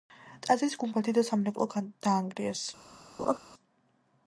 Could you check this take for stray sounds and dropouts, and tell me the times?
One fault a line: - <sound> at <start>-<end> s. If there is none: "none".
- laugh at 3.2-3.4 s